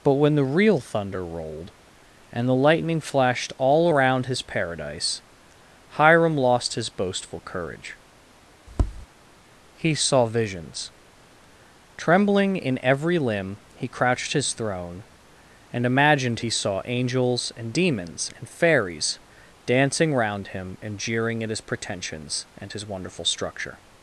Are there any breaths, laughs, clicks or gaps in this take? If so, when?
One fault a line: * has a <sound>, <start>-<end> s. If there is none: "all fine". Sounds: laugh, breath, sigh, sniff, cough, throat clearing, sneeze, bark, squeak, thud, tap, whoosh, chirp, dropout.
* has a tap, 8.7-9.1 s